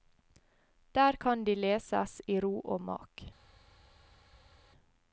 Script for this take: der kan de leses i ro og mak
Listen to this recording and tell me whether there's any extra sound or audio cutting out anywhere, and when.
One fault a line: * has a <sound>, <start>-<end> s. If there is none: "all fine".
all fine